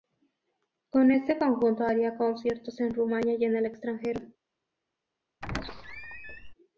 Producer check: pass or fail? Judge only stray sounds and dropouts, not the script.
fail